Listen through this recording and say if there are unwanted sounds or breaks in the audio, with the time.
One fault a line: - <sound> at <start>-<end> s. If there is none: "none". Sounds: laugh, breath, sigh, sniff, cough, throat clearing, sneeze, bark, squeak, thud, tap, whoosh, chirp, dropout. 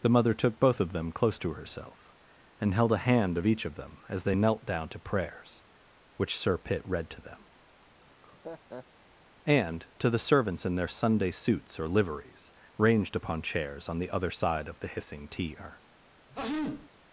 - laugh at 7.9-8.9 s
- sneeze at 16.3-16.9 s